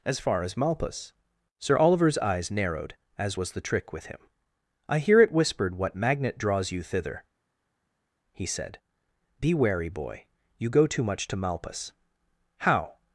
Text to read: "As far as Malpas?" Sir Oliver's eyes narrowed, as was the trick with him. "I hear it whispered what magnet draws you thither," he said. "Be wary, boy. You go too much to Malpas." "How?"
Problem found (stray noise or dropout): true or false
false